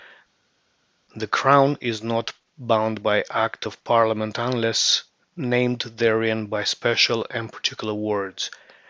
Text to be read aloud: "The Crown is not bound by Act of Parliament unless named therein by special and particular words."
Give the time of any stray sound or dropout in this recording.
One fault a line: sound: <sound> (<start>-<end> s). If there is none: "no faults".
no faults